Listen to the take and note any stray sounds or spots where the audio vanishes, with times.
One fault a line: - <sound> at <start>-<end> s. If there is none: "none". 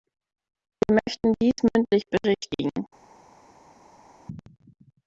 none